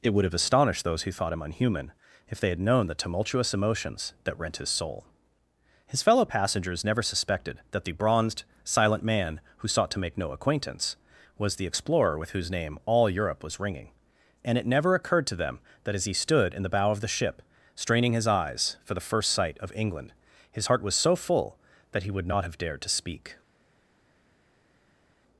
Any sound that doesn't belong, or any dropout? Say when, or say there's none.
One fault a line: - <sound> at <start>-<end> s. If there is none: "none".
none